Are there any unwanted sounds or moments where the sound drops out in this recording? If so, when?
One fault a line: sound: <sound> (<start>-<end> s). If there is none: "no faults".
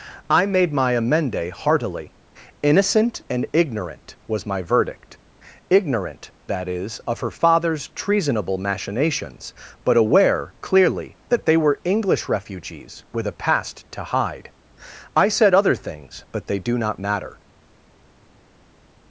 no faults